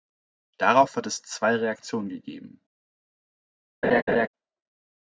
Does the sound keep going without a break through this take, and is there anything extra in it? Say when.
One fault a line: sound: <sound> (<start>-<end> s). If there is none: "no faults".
sound: laugh (3.8-4.3 s)